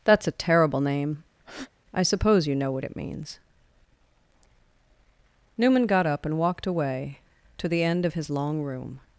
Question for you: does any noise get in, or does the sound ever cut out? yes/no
yes